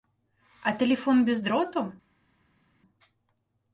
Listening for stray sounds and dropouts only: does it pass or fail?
pass